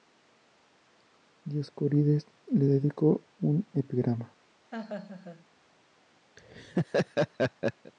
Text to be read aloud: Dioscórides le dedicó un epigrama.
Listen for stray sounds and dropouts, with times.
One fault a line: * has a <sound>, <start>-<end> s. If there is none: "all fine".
* has a laugh, 4.7-5.5 s
* has a laugh, 6.4-7.9 s